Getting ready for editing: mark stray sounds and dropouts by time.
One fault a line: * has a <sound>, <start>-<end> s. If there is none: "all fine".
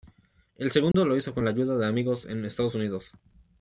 * has a dropout, 0.9-0.9 s